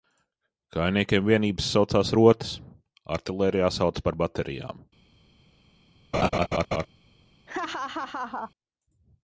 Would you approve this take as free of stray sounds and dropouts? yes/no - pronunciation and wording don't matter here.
no